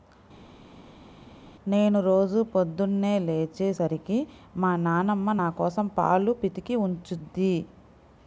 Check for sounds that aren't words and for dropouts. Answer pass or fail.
pass